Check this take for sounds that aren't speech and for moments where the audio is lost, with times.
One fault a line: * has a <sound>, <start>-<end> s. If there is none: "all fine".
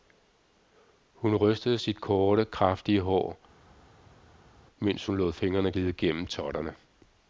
all fine